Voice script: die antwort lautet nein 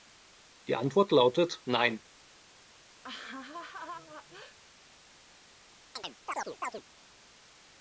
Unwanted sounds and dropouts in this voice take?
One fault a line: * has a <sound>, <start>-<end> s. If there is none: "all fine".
* has a laugh, 3.0-4.6 s
* has a chirp, 6.0-6.8 s